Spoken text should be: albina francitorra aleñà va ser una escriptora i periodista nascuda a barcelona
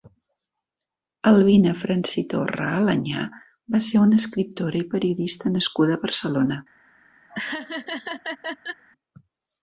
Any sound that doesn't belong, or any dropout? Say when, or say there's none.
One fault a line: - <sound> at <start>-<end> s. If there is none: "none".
- laugh at 7.3-8.8 s